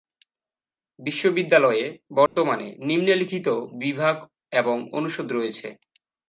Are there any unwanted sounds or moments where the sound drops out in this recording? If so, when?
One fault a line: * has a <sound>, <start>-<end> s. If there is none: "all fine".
* has a dropout, 2.3-2.4 s